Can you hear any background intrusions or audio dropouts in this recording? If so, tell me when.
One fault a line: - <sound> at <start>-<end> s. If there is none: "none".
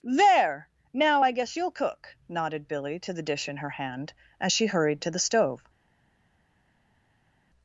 none